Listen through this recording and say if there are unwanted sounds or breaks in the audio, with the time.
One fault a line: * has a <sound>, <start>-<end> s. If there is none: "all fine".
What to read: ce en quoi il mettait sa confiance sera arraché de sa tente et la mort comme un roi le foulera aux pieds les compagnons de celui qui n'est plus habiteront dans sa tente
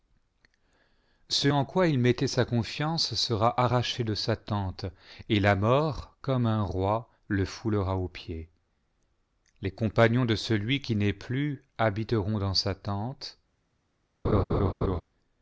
* has a laugh, 14.2-15.0 s